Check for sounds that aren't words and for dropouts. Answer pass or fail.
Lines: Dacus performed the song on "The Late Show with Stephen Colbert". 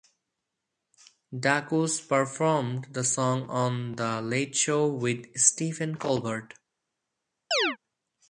fail